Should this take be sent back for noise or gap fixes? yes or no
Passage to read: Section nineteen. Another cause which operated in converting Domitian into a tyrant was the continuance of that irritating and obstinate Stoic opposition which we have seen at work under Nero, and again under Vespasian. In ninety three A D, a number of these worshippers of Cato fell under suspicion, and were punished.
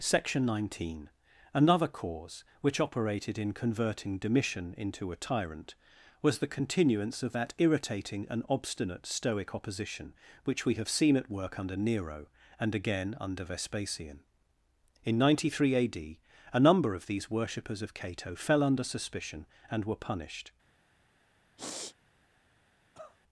yes